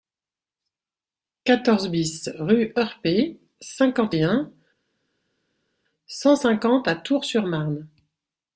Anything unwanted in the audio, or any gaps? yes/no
no